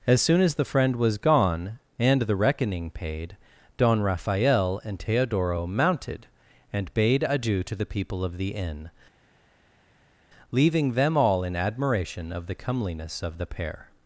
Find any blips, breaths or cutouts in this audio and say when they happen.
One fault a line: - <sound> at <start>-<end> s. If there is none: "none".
none